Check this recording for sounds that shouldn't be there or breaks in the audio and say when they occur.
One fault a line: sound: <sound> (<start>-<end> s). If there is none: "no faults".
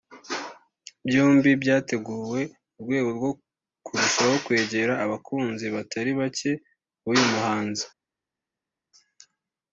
no faults